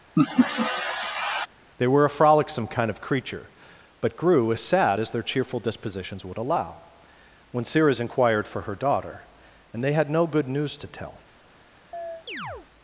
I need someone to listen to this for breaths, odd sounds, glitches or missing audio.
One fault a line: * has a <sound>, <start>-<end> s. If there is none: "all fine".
* has a laugh, 0.2-1.5 s
* has a chirp, 11.9-12.7 s